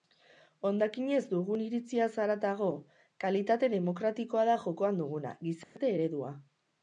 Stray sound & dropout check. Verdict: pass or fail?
fail